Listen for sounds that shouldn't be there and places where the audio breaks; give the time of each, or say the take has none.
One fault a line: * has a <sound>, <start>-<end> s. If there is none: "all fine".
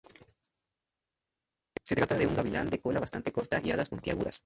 all fine